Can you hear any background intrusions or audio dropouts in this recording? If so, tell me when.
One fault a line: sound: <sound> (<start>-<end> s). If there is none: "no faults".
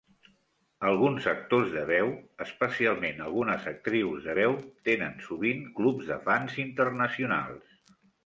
no faults